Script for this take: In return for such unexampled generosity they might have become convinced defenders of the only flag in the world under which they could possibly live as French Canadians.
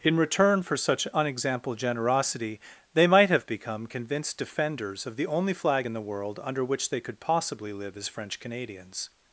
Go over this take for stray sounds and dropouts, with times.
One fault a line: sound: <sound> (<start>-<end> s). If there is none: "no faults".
no faults